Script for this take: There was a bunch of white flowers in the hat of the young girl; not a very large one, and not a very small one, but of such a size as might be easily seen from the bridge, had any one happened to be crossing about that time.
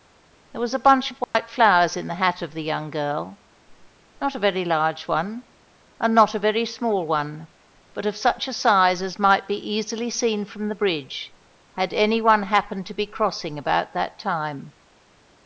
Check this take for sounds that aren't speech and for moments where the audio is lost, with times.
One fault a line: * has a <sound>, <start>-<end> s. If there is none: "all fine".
* has a dropout, 1.2-1.3 s